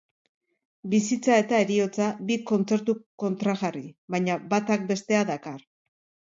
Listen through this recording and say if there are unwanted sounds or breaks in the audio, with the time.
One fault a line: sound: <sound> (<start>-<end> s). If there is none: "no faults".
no faults